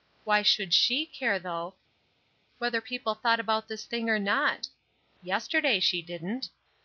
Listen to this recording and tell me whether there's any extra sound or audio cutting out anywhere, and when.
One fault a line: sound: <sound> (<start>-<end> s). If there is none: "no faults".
no faults